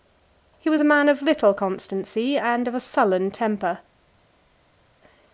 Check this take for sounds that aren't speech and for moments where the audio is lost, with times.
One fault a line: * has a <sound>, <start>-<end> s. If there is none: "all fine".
all fine